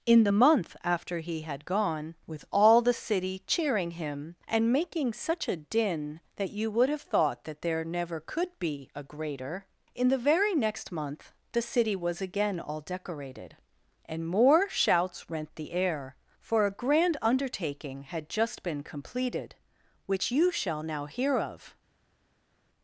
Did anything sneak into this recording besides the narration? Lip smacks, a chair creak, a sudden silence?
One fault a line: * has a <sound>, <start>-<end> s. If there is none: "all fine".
all fine